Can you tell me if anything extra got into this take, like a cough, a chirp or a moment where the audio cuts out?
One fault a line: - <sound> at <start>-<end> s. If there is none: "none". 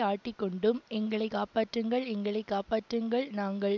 none